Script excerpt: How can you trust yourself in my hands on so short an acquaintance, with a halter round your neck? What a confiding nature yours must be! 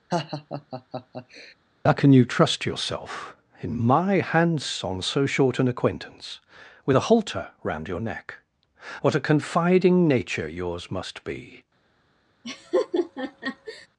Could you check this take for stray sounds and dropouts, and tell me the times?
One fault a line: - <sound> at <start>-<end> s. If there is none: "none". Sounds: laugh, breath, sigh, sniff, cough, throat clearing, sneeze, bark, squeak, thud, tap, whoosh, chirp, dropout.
- laugh at 0.1-1.5 s
- laugh at 12.4-13.9 s